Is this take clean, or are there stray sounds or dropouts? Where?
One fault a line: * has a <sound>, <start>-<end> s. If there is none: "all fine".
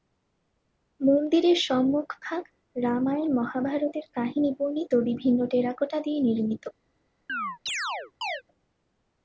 * has a chirp, 7.3-8.4 s